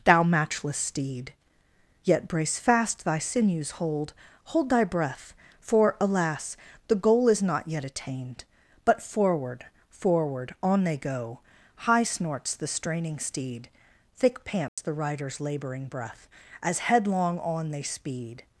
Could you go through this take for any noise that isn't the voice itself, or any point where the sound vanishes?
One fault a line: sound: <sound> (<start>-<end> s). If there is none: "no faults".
sound: dropout (14.7-14.8 s)